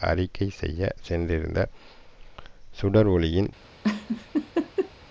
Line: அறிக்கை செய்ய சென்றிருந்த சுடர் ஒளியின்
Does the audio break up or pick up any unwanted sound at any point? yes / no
yes